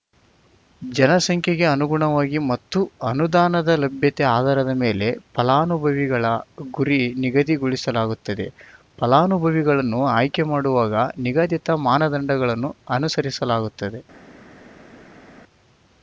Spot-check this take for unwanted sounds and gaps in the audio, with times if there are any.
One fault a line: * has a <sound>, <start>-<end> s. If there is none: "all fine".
all fine